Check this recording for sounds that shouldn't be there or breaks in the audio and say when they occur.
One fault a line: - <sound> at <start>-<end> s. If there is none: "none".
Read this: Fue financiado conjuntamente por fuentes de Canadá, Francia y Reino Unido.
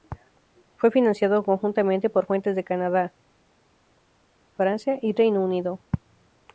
none